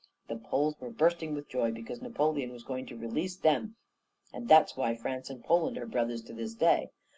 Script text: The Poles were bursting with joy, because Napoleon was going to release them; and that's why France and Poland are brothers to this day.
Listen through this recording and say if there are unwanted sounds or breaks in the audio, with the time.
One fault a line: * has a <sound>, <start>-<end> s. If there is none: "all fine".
all fine